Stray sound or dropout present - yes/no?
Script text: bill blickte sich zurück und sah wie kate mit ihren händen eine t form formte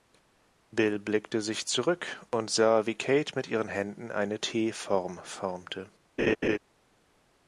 yes